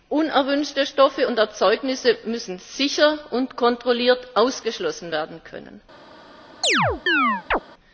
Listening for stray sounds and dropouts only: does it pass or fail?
fail